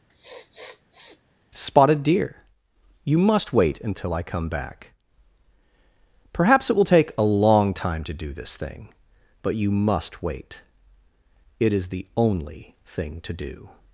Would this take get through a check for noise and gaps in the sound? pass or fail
fail